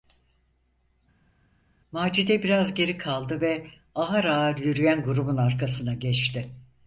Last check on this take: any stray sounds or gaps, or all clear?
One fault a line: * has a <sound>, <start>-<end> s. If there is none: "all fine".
all fine